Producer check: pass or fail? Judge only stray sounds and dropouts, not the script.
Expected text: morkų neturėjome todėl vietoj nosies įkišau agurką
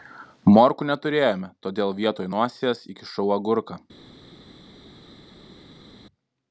pass